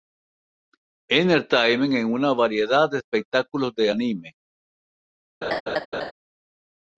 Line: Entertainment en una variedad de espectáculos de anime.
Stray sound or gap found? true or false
true